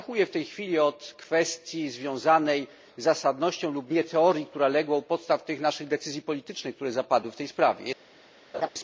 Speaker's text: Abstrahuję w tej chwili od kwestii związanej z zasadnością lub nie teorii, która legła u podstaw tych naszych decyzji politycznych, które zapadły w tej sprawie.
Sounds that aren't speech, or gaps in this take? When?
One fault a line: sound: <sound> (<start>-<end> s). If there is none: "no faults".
sound: laugh (8.5-8.7 s)